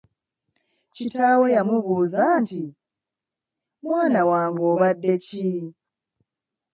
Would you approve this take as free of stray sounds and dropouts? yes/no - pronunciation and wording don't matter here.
yes